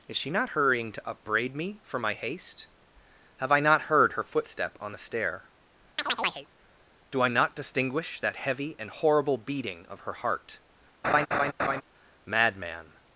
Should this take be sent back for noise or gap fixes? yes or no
yes